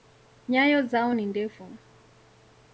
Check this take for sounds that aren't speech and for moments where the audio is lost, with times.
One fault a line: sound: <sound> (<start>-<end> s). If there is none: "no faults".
no faults